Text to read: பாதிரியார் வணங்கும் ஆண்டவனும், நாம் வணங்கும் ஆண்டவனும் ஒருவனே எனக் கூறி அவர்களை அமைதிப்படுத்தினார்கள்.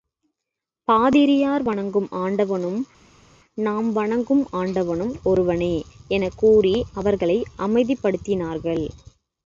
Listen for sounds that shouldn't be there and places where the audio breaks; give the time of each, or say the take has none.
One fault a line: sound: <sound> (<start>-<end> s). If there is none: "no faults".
no faults